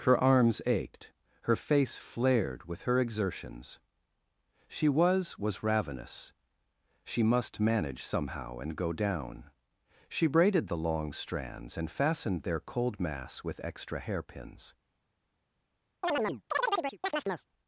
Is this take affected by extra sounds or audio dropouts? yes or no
yes